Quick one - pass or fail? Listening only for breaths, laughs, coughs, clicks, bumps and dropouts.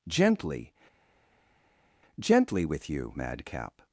pass